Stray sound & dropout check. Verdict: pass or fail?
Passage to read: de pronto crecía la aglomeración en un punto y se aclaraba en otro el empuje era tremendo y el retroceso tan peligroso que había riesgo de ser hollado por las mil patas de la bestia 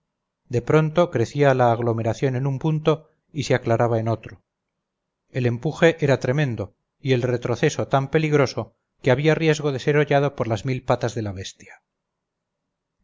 pass